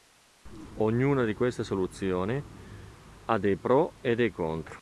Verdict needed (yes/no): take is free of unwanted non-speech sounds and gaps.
yes